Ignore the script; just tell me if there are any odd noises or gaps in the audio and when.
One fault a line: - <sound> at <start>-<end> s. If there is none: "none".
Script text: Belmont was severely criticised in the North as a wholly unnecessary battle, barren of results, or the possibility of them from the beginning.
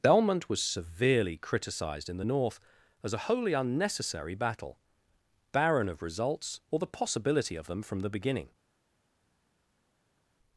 none